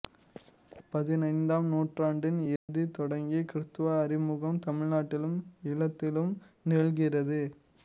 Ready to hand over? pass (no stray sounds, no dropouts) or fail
fail